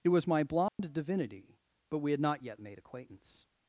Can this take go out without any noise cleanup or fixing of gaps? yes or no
no